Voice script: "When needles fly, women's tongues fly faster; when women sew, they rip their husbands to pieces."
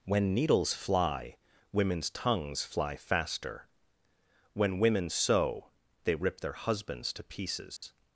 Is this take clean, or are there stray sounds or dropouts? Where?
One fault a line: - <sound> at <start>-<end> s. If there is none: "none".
- dropout at 7.8-7.8 s